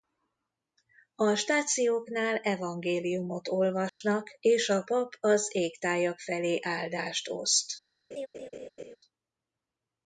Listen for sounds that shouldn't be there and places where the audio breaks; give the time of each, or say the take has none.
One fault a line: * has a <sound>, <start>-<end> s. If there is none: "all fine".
* has a dropout, 3.9-4.0 s
* has a laugh, 8.1-9.0 s